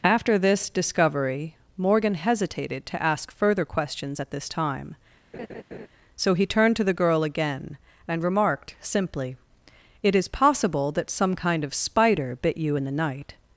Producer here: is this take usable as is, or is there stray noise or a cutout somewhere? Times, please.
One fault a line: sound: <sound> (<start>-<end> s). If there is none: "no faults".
sound: laugh (5.3-5.9 s)